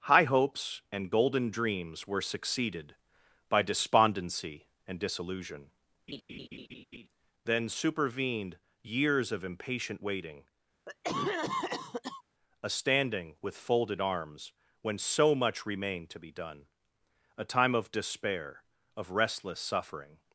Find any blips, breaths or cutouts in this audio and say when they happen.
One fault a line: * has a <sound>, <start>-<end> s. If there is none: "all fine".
* has a laugh, 6.1-7.1 s
* has a cough, 10.9-12.2 s